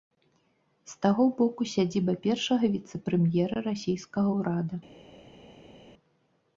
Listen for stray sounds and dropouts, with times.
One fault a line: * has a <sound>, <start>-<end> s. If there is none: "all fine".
all fine